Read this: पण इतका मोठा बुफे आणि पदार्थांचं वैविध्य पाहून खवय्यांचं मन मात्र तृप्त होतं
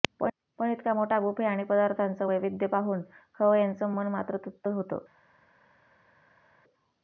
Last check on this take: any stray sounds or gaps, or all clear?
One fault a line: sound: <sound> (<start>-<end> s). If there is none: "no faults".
no faults